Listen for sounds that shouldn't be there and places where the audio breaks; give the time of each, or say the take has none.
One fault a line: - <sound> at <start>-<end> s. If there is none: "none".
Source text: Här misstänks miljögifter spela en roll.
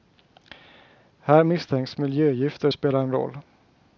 none